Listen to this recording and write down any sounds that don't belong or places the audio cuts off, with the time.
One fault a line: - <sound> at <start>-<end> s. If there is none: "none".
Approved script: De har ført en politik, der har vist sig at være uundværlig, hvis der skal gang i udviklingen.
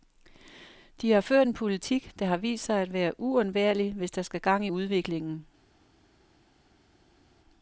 none